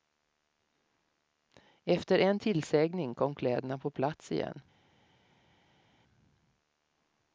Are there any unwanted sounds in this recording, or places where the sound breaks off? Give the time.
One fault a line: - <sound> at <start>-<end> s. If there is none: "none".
none